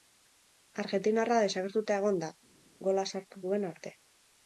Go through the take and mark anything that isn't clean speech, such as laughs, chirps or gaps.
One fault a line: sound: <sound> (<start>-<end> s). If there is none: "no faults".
no faults